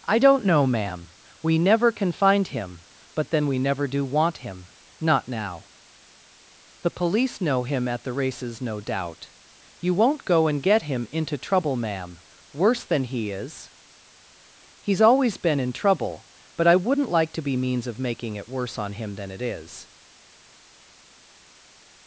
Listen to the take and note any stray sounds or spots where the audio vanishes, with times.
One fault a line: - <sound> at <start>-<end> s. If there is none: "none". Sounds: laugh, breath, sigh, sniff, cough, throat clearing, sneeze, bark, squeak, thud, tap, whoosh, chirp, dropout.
none